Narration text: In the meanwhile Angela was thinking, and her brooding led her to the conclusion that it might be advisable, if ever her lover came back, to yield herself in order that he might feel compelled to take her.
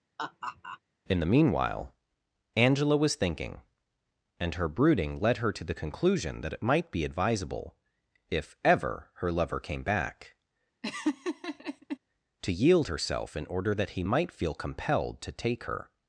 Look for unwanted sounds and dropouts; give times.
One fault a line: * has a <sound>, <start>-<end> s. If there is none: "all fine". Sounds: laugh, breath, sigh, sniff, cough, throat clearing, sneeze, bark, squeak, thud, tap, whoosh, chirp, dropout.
* has a laugh, 0.2-0.8 s
* has a laugh, 10.8-12.0 s